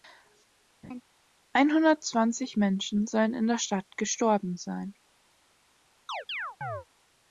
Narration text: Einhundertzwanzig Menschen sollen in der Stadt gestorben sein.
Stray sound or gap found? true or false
true